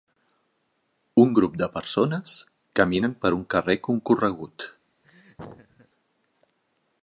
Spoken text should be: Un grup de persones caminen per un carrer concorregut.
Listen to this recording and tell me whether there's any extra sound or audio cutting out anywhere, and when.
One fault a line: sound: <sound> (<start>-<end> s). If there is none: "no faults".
sound: laugh (5.0-5.9 s)